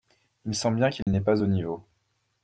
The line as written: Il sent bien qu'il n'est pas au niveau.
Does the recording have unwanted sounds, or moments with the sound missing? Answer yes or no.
yes